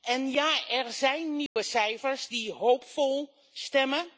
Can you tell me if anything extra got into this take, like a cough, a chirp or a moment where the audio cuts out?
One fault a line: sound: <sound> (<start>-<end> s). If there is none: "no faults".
sound: dropout (1.5-1.6 s)